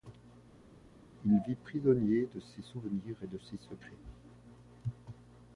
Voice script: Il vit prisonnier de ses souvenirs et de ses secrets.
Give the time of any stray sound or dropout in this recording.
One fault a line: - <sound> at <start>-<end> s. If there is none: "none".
none